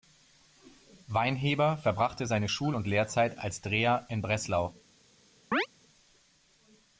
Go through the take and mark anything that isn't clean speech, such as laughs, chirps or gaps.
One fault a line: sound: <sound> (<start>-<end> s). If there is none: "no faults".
sound: chirp (5.5-5.7 s)